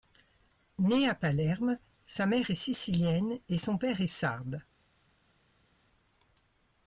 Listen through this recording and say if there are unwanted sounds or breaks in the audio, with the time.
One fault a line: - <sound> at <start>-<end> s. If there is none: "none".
none